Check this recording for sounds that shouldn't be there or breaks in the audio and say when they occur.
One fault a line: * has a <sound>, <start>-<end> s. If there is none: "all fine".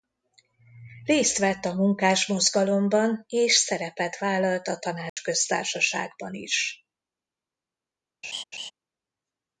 * has a dropout, 5.1-5.2 s
* has a laugh, 8.2-8.7 s